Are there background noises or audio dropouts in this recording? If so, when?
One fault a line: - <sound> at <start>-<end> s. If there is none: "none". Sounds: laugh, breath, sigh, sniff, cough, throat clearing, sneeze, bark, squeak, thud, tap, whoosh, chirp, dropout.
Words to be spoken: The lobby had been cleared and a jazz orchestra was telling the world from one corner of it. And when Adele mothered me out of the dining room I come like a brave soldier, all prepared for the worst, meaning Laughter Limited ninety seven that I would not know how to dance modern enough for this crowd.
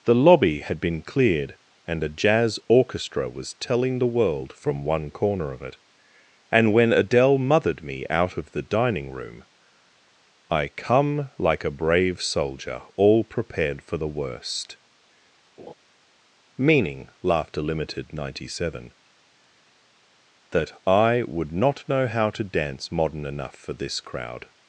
- laugh at 15.6-15.7 s